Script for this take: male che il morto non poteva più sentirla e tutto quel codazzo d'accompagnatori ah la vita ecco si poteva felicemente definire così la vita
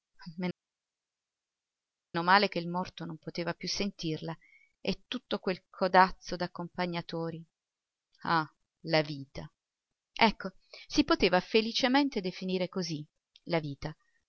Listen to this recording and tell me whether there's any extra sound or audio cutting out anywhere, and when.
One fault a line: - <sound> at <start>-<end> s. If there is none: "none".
none